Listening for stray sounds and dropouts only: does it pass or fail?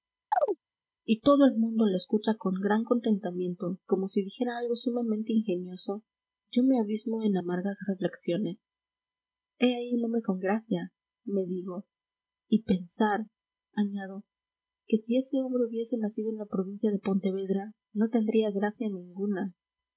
fail